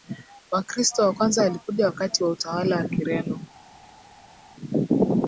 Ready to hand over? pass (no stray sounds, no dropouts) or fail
pass